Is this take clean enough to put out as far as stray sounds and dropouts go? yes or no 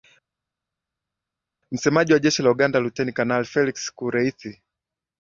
yes